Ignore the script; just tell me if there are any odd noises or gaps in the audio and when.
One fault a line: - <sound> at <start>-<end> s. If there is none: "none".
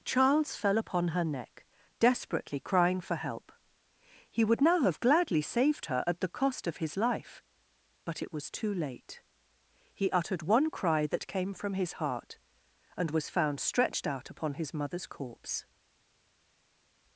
none